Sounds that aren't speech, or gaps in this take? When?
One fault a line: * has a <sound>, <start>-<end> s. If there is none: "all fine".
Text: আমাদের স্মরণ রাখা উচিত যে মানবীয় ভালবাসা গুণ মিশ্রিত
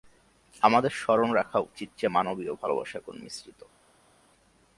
all fine